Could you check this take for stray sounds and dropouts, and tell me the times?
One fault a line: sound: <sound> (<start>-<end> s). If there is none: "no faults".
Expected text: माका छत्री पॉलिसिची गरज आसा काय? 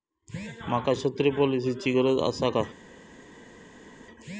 no faults